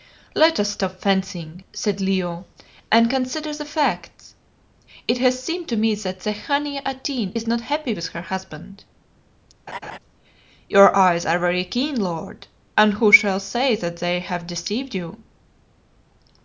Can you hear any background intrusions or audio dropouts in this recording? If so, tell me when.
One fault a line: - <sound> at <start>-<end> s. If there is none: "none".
- laugh at 9.7-10.0 s